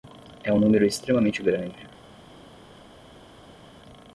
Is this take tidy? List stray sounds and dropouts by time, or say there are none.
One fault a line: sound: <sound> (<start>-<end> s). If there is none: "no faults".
no faults